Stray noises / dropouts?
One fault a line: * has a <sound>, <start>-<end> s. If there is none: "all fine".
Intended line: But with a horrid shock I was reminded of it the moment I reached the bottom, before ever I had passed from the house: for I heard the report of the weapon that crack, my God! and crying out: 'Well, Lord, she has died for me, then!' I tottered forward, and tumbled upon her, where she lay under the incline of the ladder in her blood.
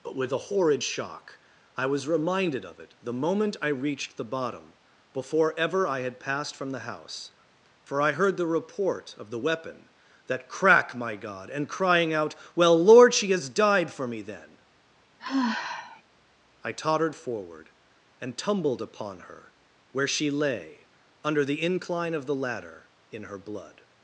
* has a sigh, 15.2-16.0 s